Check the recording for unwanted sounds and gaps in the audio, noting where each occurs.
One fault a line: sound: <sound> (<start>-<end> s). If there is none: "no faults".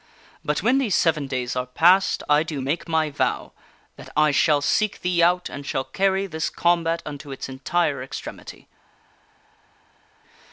no faults